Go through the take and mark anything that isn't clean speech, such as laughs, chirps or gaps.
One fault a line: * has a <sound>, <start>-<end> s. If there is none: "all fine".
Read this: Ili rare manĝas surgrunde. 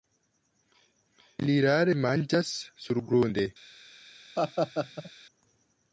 * has a laugh, 4.4-5.1 s